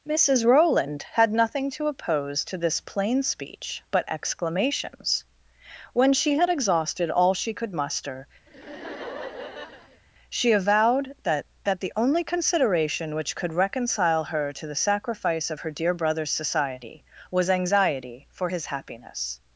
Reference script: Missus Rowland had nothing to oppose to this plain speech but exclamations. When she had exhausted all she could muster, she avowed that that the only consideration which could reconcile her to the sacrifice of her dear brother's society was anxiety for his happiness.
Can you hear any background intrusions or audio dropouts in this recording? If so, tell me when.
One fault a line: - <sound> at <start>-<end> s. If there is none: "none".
- laugh at 8.5-10.0 s